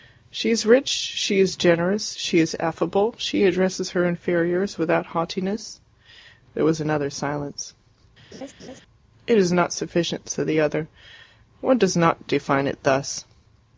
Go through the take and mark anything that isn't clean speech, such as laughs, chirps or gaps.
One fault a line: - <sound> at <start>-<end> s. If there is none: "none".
- laugh at 8.3-8.8 s